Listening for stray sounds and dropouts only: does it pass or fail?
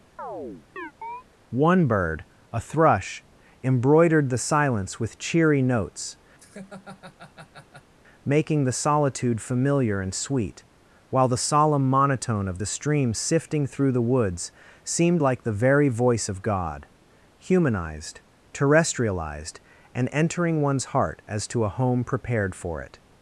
fail